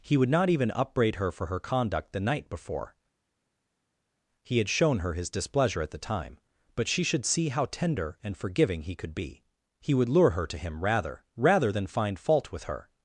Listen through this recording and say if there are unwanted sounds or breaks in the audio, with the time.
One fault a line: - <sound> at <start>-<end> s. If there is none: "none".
none